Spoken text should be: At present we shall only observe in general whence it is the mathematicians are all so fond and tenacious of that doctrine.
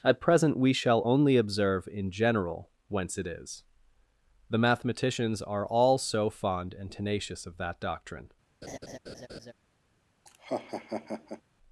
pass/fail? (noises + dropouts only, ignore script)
fail